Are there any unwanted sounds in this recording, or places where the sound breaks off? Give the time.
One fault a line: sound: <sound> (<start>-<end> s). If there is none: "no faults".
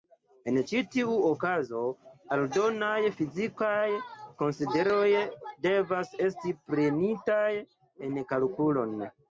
no faults